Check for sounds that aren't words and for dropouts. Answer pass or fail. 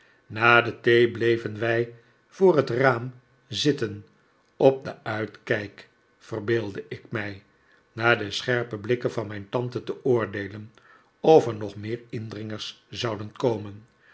pass